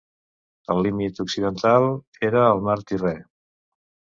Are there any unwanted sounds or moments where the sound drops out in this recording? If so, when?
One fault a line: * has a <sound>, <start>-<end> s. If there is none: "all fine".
all fine